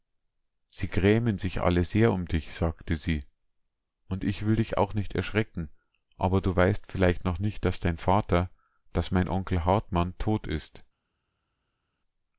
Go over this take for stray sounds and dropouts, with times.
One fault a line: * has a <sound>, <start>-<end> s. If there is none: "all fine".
all fine